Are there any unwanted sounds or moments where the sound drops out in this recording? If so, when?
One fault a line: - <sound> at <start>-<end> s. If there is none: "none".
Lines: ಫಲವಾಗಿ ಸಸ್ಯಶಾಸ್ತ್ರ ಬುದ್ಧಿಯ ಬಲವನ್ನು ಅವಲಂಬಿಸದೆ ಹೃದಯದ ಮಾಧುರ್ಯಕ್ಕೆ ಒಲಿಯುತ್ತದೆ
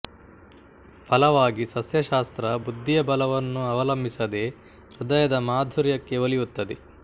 none